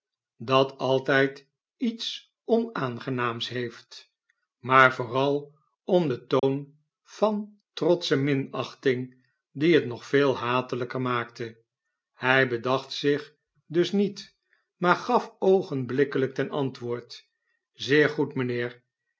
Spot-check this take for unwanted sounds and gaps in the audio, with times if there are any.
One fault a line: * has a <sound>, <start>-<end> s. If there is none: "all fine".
* has a dropout, 6.4-6.4 s